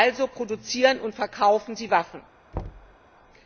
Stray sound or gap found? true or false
true